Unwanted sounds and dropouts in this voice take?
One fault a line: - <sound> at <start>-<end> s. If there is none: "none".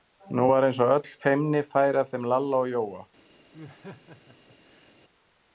- laugh at 3.5-4.9 s